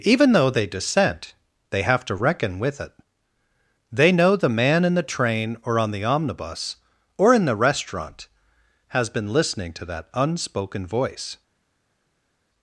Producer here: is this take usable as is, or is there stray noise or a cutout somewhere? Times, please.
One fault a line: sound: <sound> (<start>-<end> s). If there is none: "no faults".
no faults